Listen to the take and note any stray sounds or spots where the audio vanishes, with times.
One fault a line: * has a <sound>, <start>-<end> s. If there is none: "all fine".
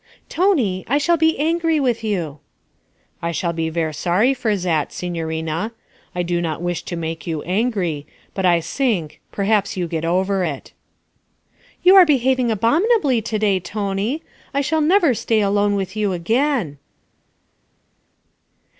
all fine